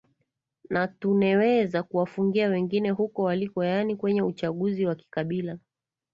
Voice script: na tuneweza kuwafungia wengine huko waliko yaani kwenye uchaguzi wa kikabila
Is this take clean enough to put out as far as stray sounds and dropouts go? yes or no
yes